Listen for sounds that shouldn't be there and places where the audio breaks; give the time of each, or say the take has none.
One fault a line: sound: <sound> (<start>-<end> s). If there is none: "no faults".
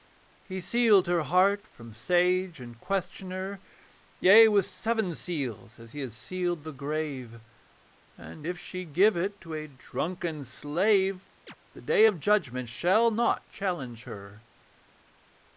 sound: chirp (11.5-11.5 s)